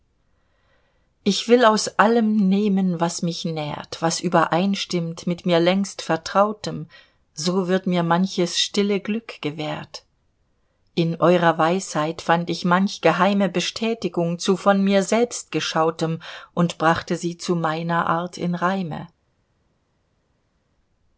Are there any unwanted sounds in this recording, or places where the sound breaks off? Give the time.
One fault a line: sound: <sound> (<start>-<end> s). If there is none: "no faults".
no faults